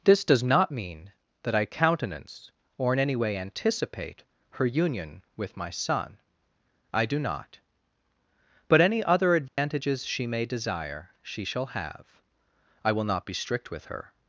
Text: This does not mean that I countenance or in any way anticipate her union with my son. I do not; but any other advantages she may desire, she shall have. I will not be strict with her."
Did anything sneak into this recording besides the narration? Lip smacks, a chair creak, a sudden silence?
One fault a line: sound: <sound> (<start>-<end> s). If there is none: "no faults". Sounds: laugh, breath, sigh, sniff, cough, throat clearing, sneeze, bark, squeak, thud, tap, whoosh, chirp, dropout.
sound: dropout (9.5-9.6 s)